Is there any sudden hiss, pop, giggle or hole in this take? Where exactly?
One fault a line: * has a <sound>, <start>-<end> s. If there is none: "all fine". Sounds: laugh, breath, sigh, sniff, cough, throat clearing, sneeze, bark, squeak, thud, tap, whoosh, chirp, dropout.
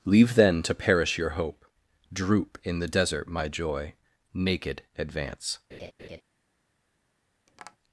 * has a laugh, 5.7-6.2 s
* has a tap, 7.5-7.8 s